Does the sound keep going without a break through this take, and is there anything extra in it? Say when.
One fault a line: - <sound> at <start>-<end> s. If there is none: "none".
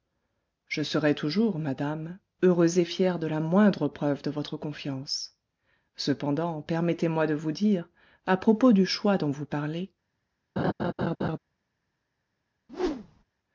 - laugh at 10.6-11.4 s
- whoosh at 12.7-13.2 s